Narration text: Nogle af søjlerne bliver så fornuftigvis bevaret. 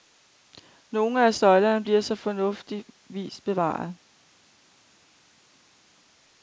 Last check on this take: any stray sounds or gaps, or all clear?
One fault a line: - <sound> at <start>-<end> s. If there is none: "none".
none